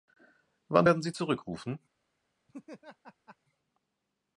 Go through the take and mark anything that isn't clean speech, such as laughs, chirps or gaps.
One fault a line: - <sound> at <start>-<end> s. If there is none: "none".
- laugh at 2.5-3.4 s